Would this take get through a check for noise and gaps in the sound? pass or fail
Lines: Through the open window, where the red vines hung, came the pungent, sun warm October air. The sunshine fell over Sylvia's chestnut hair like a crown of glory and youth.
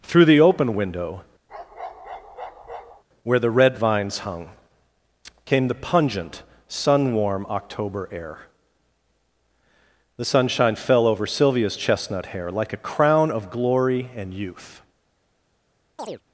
fail